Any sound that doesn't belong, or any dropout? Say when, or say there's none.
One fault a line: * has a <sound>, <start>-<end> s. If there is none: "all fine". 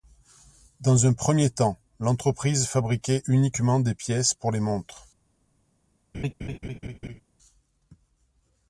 * has a laugh, 6.1-7.2 s